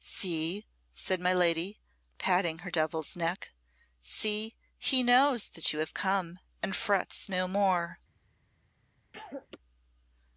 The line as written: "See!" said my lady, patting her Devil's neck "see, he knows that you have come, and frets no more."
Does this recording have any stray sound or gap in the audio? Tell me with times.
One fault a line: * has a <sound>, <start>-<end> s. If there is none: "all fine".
* has a cough, 9.1-9.6 s